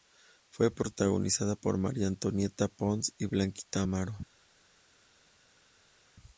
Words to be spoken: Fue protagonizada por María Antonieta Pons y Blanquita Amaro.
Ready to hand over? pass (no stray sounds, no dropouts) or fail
pass